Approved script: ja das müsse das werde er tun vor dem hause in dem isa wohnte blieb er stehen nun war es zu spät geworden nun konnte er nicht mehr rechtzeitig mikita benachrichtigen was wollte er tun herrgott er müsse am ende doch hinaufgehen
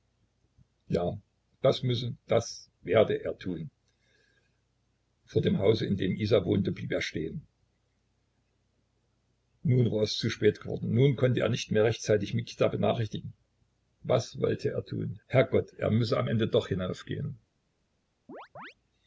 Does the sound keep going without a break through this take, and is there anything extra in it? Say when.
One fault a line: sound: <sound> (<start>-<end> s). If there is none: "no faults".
sound: chirp (18.3-18.7 s)